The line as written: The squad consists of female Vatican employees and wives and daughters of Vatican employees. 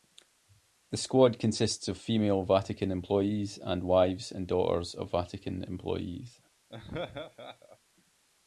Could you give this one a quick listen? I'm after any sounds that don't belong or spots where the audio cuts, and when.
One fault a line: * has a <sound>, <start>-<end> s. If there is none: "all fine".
* has a laugh, 6.7-7.8 s